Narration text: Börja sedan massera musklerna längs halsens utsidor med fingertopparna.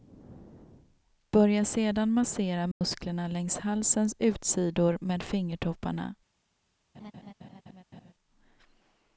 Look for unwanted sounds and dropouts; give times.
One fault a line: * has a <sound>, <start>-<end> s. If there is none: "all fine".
* has a dropout, 2.7-2.8 s
* has a laugh, 6.9-8.1 s